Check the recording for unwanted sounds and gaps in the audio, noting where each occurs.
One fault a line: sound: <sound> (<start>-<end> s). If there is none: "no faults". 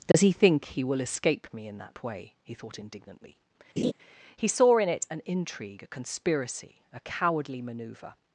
sound: dropout (0.1-0.1 s)
sound: laugh (3.8-3.9 s)